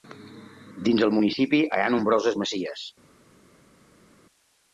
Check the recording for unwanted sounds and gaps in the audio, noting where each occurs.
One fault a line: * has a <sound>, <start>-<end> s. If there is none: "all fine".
all fine